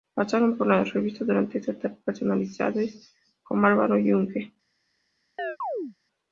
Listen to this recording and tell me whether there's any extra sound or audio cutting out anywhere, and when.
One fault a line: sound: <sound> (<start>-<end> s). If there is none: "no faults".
sound: chirp (5.4-6.0 s)